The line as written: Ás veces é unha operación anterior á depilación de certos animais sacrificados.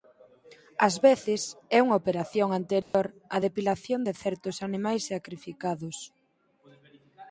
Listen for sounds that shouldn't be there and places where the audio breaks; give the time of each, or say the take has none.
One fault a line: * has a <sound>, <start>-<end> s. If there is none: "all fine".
* has a dropout, 2.8-2.9 s